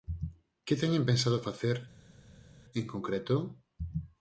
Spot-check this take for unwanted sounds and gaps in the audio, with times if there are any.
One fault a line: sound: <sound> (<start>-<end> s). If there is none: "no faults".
no faults